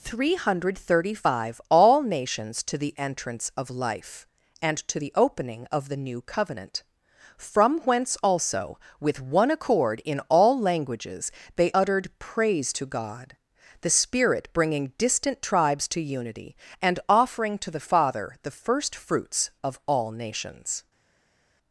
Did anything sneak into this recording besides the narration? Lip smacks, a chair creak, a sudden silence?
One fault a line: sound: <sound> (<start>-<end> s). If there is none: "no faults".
no faults